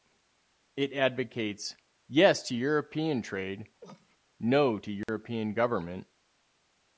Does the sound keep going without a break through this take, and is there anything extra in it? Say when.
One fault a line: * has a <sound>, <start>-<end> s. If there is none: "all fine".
* has a cough, 3.8-4.2 s
* has a dropout, 5.0-5.1 s